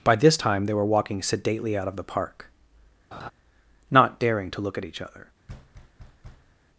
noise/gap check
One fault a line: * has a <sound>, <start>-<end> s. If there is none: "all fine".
* has a laugh, 3.1-3.3 s
* has a thud, 5.5-6.5 s